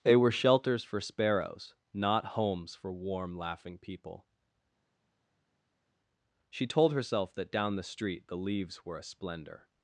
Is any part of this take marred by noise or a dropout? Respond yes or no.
no